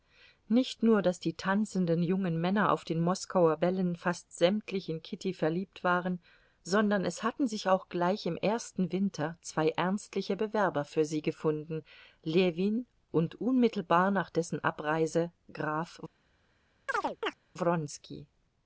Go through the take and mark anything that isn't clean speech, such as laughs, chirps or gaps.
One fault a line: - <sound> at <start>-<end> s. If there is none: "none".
- chirp at 16.9-17.4 s